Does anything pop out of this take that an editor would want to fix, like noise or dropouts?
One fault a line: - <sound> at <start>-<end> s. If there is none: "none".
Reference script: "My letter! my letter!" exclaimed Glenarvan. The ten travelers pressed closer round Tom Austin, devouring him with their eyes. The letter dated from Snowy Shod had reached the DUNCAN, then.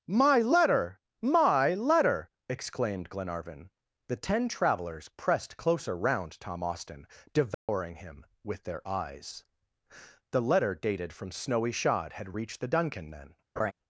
- dropout at 7.5-7.7 s
- laugh at 13.6-13.7 s